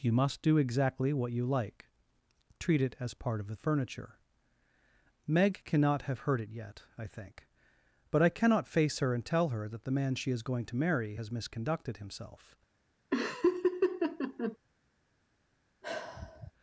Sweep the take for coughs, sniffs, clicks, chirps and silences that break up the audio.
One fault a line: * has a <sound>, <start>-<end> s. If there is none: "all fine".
* has a laugh, 13.1-14.6 s
* has a sigh, 15.8-16.5 s